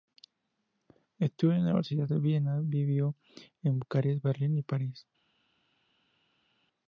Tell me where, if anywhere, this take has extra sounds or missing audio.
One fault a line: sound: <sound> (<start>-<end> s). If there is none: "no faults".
no faults